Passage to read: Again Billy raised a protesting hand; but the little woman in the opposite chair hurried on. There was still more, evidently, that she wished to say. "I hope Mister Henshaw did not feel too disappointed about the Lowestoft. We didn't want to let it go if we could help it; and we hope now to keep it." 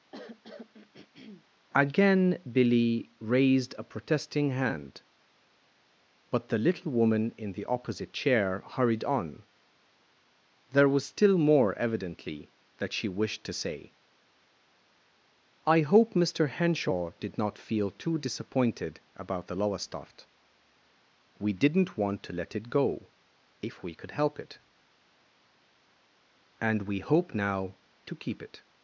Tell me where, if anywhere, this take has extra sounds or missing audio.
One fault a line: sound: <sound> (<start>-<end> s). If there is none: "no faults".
sound: throat clearing (0.1-1.5 s)